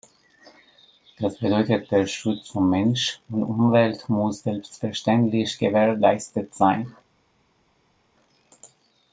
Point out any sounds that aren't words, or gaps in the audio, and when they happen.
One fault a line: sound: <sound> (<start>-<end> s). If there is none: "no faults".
no faults